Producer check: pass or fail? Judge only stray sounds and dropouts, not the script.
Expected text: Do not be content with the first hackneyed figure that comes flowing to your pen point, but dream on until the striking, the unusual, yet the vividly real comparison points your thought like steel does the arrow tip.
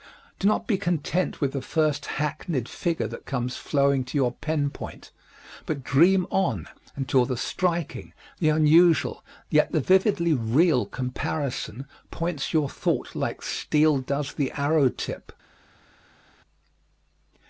pass